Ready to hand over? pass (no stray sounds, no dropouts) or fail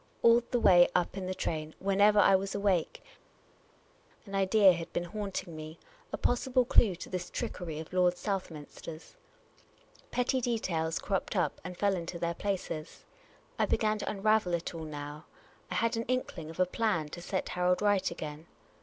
pass